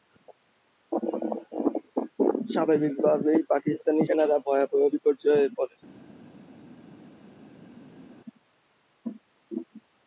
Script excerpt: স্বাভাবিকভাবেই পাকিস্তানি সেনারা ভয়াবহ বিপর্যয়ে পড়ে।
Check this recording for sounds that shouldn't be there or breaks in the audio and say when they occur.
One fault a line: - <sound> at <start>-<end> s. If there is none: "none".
none